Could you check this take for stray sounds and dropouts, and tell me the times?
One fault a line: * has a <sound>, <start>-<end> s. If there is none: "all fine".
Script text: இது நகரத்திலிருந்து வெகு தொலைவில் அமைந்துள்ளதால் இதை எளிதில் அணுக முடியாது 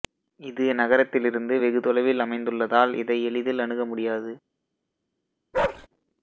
* has a bark, 5.5-5.9 s